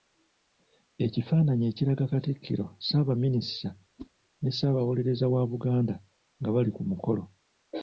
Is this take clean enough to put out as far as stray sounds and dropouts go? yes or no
no